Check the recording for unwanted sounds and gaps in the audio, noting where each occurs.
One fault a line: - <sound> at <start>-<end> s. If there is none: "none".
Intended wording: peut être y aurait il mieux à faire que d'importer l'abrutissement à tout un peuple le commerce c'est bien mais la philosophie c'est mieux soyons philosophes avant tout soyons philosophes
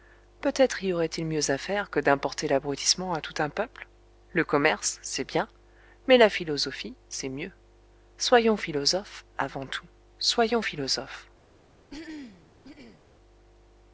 - throat clearing at 11.9-13.0 s